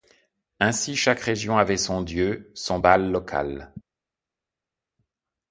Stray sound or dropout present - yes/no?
no